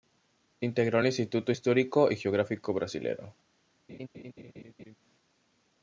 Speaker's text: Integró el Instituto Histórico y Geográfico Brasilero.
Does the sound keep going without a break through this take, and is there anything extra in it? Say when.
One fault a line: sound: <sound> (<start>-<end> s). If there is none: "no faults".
sound: laugh (3.9-5.0 s)